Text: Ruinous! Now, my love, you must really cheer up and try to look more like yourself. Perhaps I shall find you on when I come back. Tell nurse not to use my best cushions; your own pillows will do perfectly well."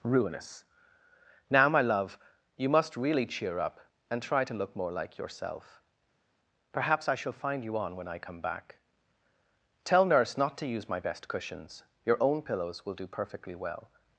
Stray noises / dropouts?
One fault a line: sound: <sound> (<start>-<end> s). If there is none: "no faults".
no faults